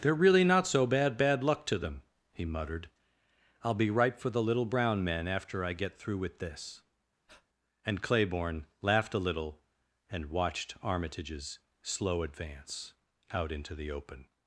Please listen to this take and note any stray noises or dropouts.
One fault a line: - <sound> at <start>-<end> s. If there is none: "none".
- breath at 7.3-7.5 s